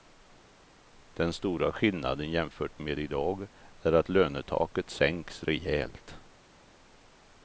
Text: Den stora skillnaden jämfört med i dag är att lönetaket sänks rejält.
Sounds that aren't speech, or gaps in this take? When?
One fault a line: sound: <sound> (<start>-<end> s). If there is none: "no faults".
no faults